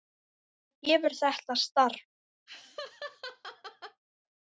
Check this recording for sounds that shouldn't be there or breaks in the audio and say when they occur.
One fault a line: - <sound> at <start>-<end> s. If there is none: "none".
- laugh at 2.5-4.0 s